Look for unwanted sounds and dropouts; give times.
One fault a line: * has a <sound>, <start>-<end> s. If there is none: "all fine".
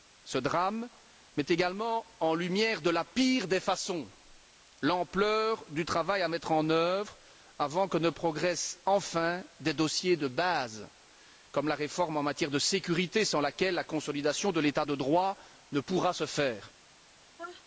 * has a sneeze, 17.4-17.6 s